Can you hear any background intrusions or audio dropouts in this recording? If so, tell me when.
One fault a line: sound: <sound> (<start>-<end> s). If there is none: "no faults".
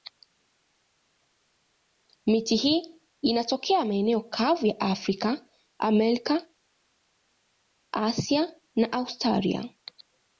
no faults